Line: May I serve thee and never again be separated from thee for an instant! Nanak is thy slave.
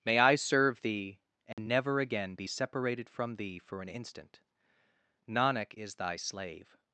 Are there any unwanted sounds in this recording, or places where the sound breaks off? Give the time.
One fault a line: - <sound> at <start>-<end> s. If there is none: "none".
- dropout at 1.5-1.6 s